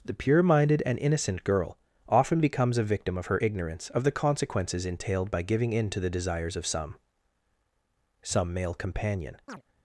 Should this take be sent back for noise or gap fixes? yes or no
yes